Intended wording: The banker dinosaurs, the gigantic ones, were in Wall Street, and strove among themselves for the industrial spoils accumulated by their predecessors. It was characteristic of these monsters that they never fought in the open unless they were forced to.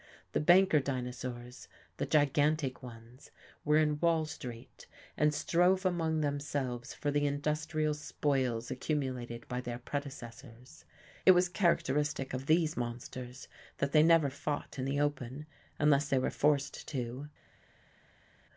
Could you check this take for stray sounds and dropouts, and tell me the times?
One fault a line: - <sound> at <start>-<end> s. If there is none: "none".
none